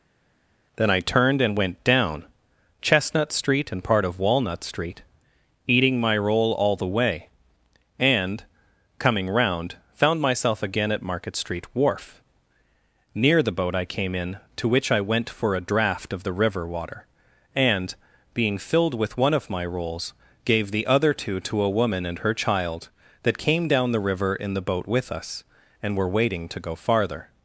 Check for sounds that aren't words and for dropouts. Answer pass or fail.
pass